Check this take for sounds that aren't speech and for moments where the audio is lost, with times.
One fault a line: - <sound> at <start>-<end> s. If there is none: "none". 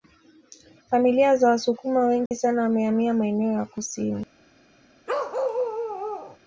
- dropout at 2.3-2.3 s
- bark at 5.1-6.4 s